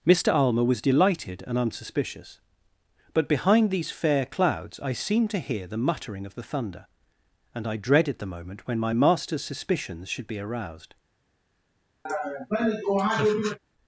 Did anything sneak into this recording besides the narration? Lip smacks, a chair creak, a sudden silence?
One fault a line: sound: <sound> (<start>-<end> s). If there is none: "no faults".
sound: laugh (12.1-13.6 s)